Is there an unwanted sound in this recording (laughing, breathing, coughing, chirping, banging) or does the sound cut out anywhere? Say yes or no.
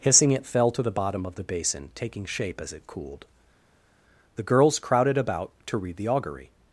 no